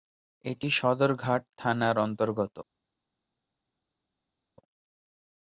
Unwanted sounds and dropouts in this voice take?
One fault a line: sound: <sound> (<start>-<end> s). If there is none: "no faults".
no faults